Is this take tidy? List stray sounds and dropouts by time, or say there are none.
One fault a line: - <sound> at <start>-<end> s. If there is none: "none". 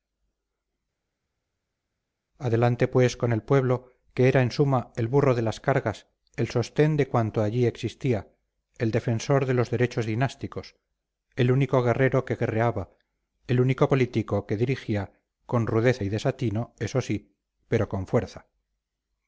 none